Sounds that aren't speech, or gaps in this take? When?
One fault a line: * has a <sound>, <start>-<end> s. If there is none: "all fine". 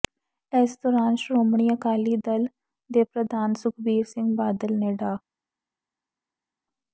all fine